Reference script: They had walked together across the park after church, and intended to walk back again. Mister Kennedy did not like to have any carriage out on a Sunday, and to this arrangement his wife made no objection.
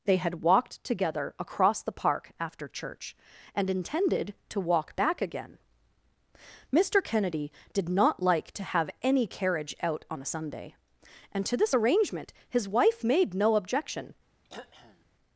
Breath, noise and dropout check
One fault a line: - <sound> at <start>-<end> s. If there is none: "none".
- throat clearing at 14.4-15.0 s